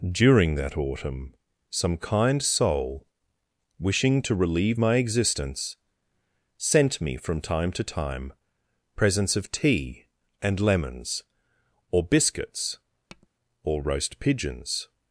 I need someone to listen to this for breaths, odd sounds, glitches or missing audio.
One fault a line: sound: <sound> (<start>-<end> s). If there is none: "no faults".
sound: tap (13.1-13.3 s)